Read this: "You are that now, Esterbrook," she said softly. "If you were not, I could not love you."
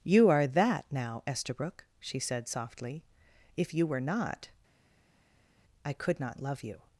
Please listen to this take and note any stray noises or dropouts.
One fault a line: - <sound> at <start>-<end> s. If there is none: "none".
none